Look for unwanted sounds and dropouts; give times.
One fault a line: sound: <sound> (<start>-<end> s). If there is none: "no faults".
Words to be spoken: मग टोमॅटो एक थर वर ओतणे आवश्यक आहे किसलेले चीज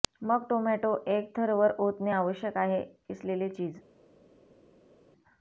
no faults